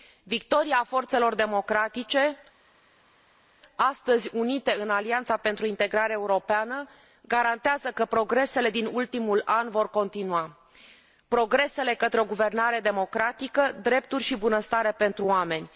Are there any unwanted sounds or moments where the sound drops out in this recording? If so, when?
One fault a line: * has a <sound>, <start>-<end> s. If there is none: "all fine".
all fine